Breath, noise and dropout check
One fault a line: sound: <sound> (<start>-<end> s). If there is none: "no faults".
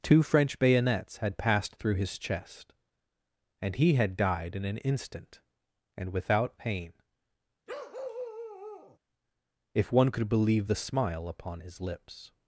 sound: bark (7.7-9.0 s)